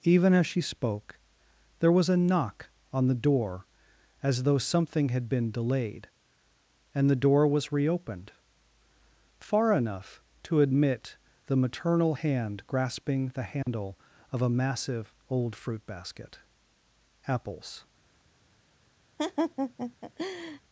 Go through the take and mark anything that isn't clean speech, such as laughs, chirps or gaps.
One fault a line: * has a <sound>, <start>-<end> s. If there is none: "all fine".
* has a dropout, 13.6-13.7 s
* has a laugh, 19.2-20.6 s